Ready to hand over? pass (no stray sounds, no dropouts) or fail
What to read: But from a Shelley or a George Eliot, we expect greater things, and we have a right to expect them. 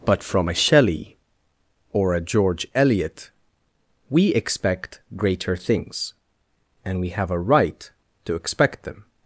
pass